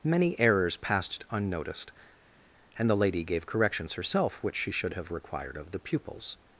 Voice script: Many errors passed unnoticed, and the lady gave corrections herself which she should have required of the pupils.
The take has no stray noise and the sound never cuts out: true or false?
true